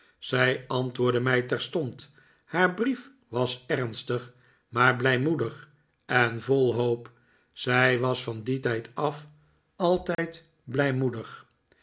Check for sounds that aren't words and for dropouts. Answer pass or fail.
fail